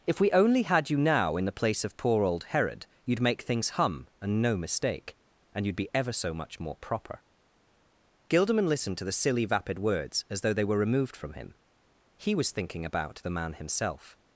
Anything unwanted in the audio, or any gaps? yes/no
no